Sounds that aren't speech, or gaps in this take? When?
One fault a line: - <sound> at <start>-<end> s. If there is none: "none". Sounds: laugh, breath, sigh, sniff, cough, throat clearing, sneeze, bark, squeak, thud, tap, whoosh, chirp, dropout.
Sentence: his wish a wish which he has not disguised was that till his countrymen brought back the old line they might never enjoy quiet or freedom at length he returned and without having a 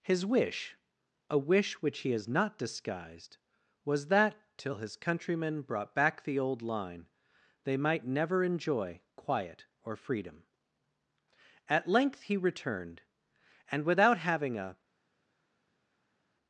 none